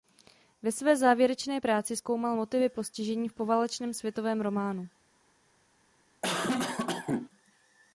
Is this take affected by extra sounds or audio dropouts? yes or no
yes